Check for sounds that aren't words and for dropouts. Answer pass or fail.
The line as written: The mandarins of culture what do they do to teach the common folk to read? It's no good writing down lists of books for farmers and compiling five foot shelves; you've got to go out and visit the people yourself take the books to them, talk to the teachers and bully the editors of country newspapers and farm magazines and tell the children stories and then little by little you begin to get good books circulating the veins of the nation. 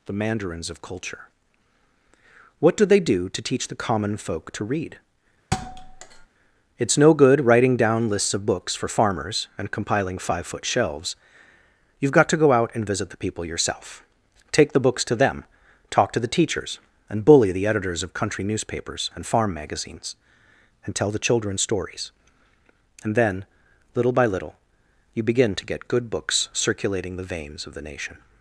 fail